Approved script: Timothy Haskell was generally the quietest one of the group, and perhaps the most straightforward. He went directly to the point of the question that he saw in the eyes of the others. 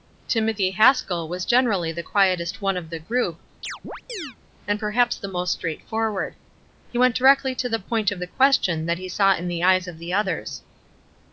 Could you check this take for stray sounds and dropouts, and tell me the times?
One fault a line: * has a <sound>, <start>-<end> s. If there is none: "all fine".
* has a chirp, 3.6-4.4 s